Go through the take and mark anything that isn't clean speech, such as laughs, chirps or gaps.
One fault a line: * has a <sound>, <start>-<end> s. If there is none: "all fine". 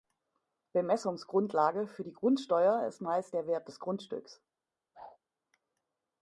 * has a whoosh, 4.9-5.2 s